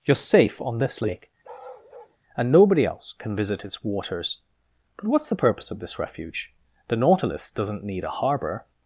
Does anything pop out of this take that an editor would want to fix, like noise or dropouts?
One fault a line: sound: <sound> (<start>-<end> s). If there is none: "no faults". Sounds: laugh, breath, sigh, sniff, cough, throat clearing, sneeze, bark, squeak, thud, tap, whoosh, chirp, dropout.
sound: bark (1.4-2.2 s)